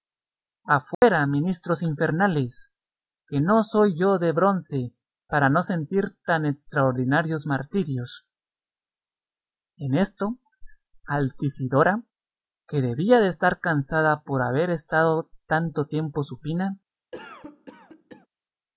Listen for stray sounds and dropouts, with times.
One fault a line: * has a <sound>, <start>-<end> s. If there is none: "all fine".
* has a dropout, 0.9-1.0 s
* has a cough, 17.1-18.3 s